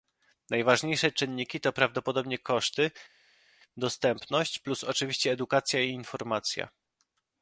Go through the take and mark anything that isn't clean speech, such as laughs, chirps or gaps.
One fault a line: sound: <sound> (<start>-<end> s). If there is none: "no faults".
no faults